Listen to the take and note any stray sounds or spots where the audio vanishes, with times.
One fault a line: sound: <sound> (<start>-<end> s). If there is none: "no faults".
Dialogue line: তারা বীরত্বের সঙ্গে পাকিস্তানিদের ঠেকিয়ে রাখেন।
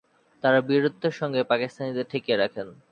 no faults